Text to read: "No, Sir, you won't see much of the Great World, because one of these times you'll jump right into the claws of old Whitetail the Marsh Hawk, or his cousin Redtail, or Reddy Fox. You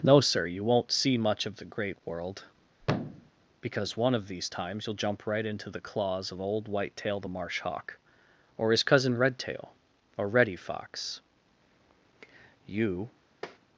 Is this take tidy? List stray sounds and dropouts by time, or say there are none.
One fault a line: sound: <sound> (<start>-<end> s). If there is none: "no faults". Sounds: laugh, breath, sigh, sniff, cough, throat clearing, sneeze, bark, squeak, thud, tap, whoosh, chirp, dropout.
sound: thud (2.8-3.3 s)
sound: tap (13.4-13.6 s)